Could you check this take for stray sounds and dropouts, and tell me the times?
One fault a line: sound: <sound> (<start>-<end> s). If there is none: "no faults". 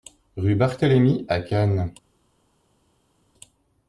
no faults